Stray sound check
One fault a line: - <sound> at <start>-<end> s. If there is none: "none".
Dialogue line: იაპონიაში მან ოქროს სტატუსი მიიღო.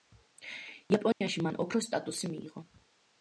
- dropout at 1.1-1.2 s